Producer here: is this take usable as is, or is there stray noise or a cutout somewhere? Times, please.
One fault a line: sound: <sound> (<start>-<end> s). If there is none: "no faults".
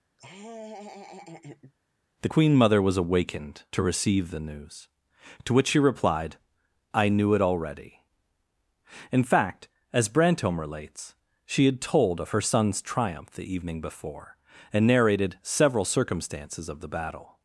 sound: laugh (0.2-1.7 s)